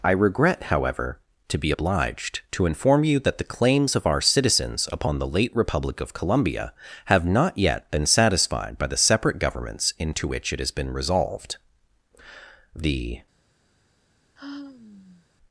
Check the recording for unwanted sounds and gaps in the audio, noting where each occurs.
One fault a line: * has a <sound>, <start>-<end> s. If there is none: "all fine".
* has a sigh, 14.4-15.3 s